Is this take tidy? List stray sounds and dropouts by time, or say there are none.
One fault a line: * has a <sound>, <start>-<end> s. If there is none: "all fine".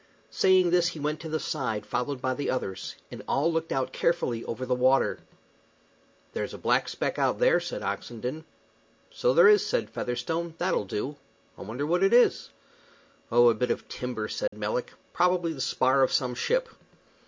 * has a dropout, 14.5-14.5 s